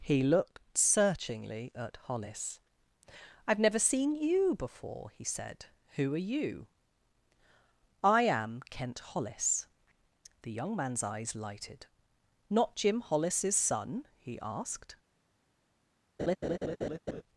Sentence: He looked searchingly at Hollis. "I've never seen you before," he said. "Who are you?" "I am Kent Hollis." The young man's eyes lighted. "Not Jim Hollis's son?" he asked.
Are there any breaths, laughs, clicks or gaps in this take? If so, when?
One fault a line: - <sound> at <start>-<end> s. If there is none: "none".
- laugh at 16.2-17.2 s